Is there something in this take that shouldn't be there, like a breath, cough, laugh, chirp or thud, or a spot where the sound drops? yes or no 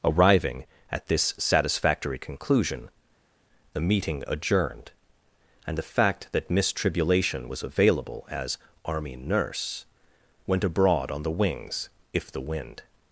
no